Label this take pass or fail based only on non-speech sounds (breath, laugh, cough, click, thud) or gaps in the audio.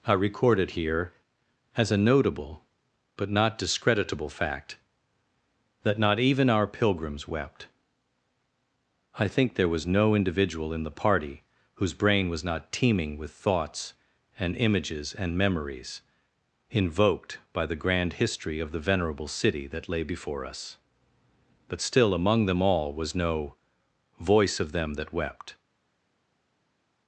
pass